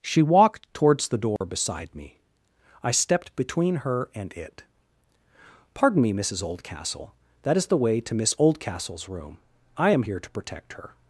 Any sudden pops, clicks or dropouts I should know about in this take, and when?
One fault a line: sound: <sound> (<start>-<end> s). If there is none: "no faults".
sound: dropout (1.4-1.4 s)